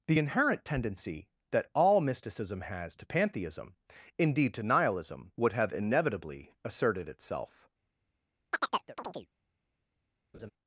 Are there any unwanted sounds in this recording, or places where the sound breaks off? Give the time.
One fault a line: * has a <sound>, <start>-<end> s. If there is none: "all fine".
* has a chirp, 8.5-9.3 s
* has a laugh, 10.3-10.5 s